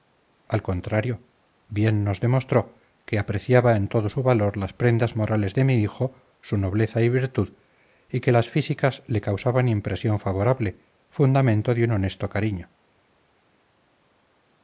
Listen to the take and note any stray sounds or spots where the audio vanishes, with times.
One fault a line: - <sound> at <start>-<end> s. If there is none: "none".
none